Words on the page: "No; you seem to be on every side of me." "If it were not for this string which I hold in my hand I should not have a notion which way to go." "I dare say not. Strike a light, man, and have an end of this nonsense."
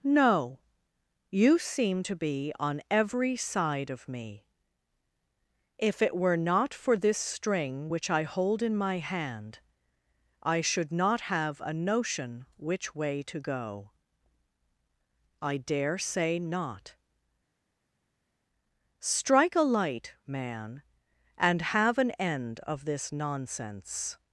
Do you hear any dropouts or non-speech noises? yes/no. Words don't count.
no